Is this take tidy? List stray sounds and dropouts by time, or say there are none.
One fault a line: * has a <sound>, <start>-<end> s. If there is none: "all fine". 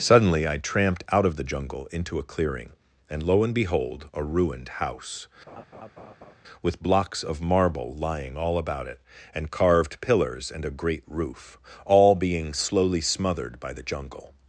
* has a laugh, 5.5-6.3 s